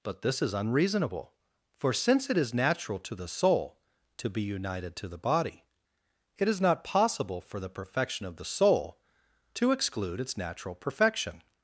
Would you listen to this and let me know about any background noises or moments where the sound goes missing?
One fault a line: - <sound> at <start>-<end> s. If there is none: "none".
none